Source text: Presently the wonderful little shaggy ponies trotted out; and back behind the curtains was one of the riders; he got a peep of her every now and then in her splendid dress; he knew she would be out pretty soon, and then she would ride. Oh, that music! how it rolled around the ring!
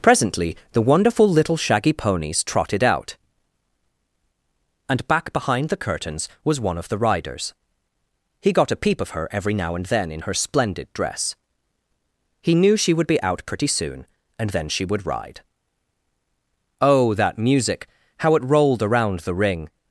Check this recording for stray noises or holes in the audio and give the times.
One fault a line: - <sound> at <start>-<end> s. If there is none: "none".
none